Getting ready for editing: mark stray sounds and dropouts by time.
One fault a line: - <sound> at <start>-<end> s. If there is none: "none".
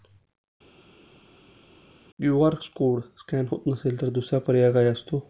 none